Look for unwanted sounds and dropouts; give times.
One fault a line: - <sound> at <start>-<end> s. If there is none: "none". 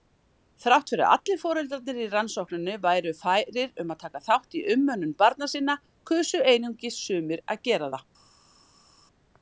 none